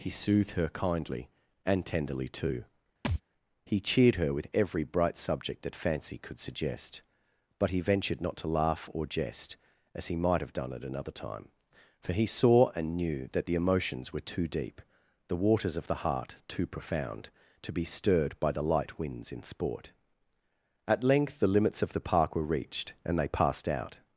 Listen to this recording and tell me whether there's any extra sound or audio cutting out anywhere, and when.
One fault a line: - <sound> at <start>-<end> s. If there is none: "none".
- thud at 3.0-3.2 s